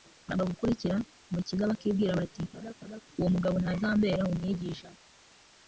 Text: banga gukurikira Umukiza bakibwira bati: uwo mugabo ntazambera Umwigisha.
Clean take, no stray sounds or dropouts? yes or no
no